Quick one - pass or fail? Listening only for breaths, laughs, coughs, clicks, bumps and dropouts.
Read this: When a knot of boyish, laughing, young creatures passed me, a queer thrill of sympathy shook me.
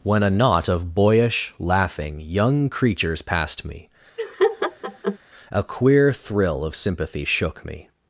fail